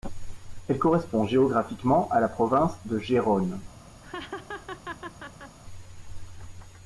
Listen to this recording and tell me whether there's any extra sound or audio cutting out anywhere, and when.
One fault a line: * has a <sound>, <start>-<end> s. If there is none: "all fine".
* has a laugh, 4.0-5.6 s